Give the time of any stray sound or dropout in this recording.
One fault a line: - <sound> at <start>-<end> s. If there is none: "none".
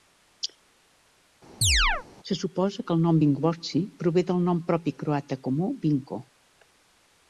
- chirp at 1.6-2.1 s